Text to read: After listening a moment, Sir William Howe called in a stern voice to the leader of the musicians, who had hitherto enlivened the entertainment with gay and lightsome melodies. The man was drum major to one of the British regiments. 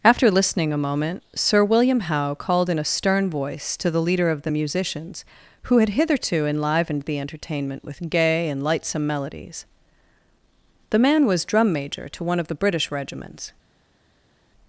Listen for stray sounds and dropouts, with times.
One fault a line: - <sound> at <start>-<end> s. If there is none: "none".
none